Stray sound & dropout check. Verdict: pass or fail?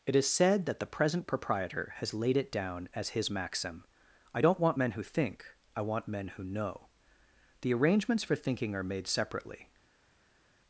pass